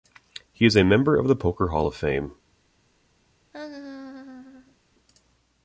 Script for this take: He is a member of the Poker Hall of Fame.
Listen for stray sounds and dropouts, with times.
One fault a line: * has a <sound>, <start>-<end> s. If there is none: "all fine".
* has a laugh, 3.5-4.8 s